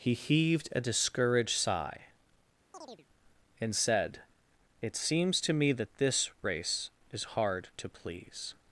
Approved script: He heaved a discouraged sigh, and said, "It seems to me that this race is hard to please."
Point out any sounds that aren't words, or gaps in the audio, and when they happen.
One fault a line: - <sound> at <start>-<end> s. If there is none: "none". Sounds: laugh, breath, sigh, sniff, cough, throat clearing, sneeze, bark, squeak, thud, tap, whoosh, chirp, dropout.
- chirp at 2.7-3.1 s